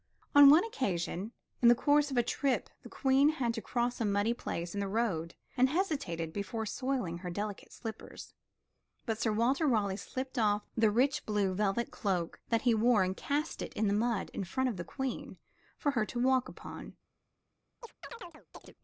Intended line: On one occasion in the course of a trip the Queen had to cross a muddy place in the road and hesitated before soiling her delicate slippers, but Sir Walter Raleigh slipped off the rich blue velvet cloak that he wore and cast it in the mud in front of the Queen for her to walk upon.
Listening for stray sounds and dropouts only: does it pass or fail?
fail